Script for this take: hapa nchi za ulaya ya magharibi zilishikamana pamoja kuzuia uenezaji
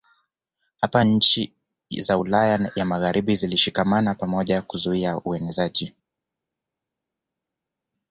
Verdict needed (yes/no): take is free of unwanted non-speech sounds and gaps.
yes